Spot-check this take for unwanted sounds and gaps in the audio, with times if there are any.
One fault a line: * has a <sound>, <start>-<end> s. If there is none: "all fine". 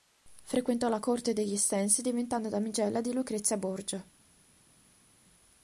all fine